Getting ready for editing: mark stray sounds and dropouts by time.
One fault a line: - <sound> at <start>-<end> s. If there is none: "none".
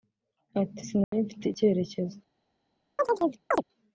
- dropout at 1.0-1.1 s
- chirp at 3.0-3.6 s